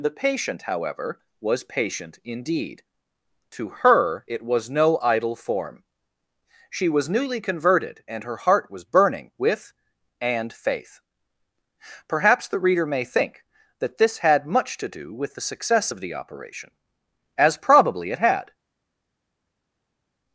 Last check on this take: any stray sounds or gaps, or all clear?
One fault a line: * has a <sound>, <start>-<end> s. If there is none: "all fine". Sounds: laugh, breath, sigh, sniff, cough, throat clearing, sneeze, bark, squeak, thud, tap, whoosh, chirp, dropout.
all fine